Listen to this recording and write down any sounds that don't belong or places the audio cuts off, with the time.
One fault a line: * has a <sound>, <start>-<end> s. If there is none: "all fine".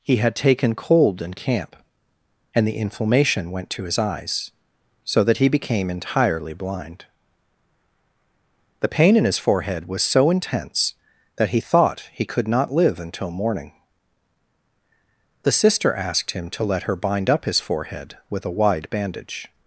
all fine